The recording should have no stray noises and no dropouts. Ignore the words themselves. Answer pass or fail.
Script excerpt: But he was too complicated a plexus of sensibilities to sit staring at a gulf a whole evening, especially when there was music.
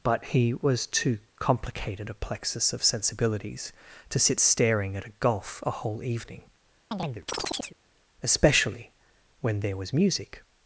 fail